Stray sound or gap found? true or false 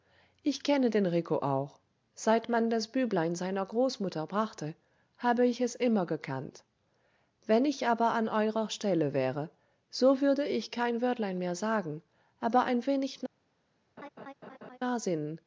true